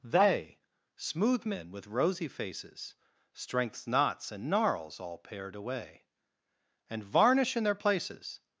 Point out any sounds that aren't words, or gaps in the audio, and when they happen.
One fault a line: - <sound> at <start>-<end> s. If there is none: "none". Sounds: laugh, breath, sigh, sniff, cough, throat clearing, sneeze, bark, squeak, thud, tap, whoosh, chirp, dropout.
none